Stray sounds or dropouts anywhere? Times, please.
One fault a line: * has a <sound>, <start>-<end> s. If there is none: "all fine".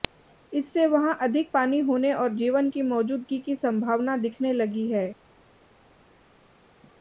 all fine